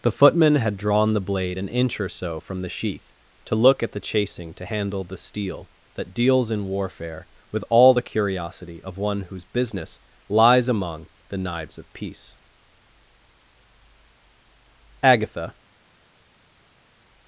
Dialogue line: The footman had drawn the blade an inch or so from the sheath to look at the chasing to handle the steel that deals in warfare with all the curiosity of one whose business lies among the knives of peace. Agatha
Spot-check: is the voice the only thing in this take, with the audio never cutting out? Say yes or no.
yes